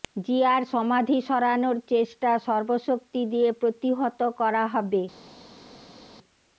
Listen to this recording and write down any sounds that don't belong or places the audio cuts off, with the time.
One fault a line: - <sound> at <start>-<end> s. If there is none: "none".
none